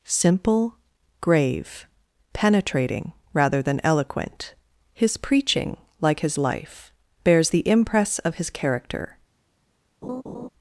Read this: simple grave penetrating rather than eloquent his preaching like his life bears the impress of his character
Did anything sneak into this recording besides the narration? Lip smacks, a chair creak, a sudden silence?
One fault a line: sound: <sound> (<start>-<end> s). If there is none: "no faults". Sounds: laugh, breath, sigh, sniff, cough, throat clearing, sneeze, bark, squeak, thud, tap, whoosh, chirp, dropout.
sound: laugh (10.0-10.5 s)